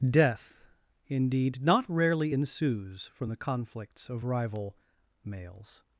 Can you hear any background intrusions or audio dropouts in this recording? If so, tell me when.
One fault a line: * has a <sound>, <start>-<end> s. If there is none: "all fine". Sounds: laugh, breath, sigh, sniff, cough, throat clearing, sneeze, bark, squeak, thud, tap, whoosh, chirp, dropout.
all fine